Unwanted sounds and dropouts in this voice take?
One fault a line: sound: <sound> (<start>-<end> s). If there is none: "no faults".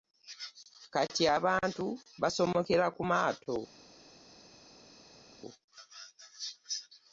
no faults